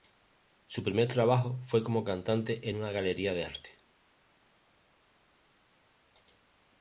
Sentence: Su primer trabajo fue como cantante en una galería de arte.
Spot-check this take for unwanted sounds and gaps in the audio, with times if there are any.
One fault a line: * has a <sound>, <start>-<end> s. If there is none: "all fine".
all fine